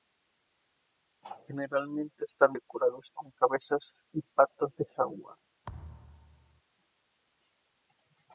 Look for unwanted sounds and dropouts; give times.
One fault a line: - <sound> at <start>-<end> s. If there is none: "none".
- thud at 5.6-6.6 s